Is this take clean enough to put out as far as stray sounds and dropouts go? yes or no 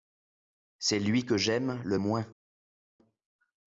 yes